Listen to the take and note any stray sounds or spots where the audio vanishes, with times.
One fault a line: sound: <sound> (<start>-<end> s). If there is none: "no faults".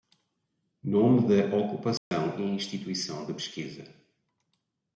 sound: dropout (2.0-2.1 s)